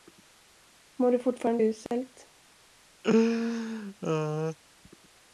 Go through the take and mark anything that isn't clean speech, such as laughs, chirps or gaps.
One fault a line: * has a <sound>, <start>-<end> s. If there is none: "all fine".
* has a dropout, 1.9-1.9 s
* has a laugh, 3.0-4.6 s